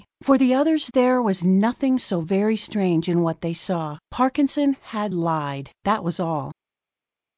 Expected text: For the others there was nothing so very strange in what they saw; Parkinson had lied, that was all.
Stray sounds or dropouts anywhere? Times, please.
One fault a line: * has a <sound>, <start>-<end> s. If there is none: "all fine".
all fine